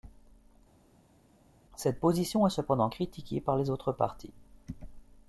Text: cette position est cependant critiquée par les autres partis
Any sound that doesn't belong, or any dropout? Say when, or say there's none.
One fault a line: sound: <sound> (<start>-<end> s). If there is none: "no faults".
no faults